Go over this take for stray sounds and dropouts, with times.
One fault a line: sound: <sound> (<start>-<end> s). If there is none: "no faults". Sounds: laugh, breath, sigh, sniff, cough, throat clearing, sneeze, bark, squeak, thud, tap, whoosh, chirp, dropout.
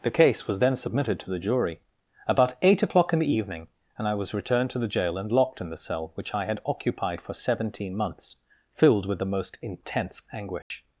sound: dropout (10.6-10.7 s)